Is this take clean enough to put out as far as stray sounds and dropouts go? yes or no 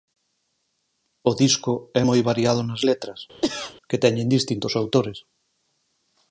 no